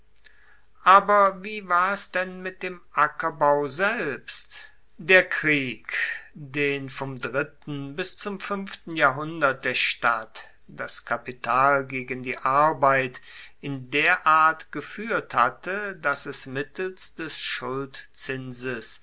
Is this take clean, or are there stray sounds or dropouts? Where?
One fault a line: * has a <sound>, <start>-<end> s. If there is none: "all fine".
all fine